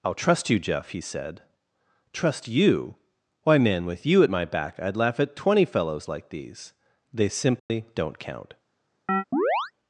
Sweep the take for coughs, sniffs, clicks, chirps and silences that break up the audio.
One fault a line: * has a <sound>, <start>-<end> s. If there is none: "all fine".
* has a dropout, 7.6-7.7 s
* has a chirp, 9.1-9.7 s